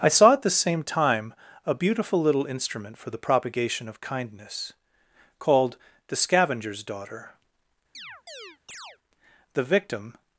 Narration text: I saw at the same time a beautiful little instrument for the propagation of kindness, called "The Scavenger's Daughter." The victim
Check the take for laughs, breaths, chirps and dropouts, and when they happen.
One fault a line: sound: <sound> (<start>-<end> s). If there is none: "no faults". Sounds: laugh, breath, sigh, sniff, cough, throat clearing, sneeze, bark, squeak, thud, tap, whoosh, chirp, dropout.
sound: chirp (7.9-9.0 s)